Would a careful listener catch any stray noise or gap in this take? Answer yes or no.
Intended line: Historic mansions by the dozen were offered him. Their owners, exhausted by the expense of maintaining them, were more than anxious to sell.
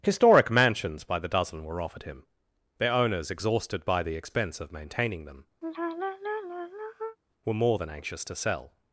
yes